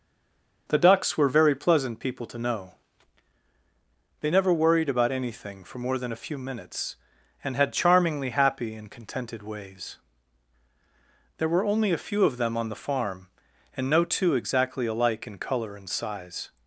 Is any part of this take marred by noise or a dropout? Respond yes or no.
no